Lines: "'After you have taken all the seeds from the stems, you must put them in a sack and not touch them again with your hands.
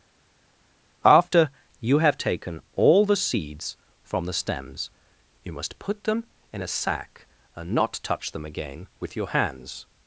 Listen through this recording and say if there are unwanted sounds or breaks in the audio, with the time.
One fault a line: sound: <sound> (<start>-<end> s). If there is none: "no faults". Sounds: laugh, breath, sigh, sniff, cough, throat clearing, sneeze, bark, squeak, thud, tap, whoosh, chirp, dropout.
no faults